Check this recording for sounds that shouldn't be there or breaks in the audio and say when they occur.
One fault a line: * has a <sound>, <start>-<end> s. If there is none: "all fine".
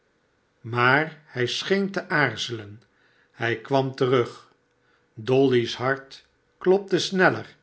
all fine